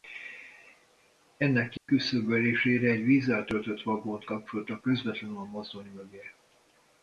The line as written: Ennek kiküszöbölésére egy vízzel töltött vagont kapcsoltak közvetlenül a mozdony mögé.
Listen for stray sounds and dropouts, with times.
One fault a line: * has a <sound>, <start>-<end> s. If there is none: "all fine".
* has a dropout, 1.8-1.9 s